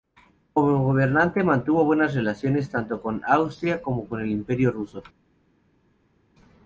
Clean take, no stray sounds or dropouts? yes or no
yes